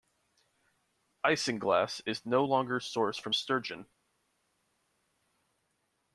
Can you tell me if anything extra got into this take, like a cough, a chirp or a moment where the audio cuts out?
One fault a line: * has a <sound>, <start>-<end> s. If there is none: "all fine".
all fine